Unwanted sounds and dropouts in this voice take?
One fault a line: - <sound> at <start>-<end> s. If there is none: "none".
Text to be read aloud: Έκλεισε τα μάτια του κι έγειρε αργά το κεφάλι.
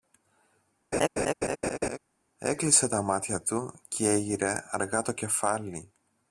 - laugh at 0.9-2.0 s